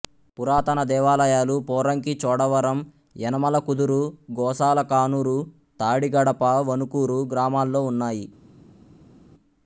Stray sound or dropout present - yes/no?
no